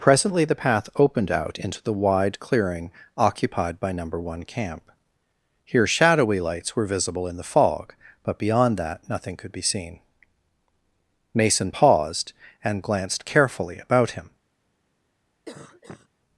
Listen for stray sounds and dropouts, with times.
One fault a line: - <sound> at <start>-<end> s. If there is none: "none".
- cough at 15.5-16.1 s